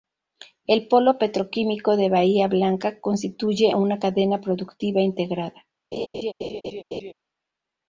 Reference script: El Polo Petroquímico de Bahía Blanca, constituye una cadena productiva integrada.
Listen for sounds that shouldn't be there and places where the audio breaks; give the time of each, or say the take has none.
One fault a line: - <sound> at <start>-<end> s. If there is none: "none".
- laugh at 5.9-7.1 s